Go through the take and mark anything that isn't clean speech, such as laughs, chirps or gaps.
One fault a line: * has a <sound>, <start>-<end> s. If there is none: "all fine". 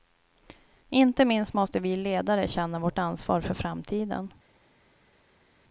all fine